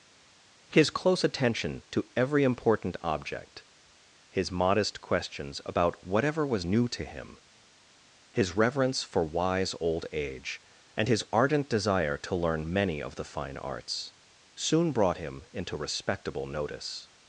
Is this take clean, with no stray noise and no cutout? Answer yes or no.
yes